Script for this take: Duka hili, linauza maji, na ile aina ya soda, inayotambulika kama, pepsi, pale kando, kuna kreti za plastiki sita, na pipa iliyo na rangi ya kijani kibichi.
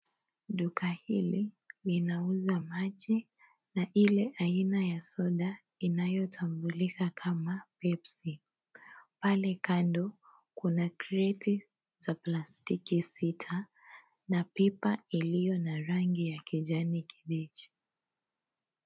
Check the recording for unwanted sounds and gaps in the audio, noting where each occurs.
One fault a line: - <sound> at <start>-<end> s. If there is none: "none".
none